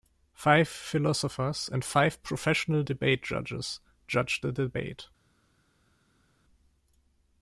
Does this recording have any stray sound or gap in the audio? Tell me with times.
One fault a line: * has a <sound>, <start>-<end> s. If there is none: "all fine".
all fine